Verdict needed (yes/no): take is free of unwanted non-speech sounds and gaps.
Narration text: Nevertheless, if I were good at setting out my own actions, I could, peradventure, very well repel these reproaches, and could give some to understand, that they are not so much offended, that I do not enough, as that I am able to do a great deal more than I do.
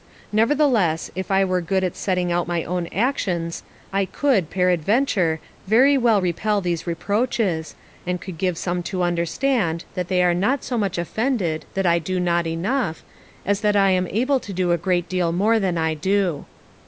yes